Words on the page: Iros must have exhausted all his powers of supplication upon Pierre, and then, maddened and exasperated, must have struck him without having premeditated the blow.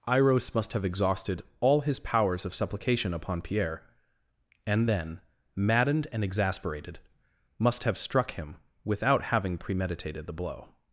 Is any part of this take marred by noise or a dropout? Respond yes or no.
no